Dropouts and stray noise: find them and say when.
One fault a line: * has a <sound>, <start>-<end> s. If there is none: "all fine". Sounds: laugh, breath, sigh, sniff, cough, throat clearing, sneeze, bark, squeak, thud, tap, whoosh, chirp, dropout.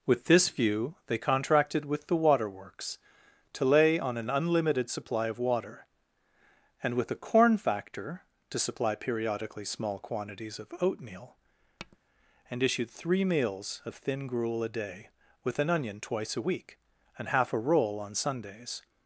* has a tap, 11.8-12.0 s